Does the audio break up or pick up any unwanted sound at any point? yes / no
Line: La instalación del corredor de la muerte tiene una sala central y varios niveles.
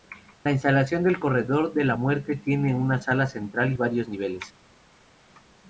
no